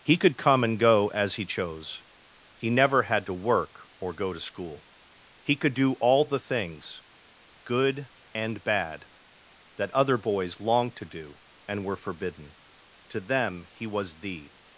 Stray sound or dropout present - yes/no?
no